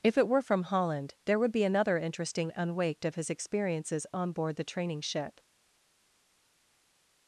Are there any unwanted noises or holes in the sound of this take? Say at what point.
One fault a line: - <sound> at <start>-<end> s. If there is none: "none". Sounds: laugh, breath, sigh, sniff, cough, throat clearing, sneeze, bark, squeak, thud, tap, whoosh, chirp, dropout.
none